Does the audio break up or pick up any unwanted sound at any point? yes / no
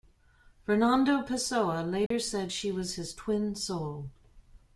yes